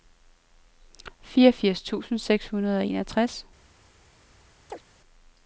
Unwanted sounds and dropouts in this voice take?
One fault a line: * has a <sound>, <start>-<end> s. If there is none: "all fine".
* has a chirp, 4.7-4.8 s